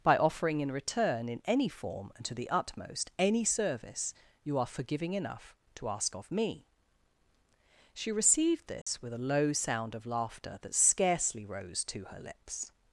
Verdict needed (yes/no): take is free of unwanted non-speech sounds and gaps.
no